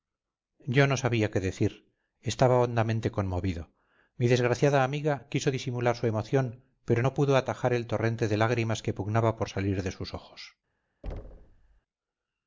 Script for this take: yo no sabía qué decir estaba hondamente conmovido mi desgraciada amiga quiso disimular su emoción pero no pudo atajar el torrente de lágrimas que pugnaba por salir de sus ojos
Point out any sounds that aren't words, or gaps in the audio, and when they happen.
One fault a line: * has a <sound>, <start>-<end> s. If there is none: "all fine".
* has a thud, 11.0-11.8 s